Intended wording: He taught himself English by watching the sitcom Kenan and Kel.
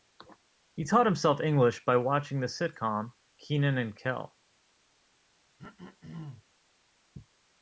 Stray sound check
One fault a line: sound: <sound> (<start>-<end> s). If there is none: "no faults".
sound: throat clearing (5.6-6.4 s)